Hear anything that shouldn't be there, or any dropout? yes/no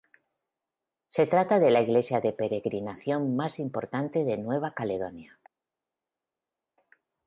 no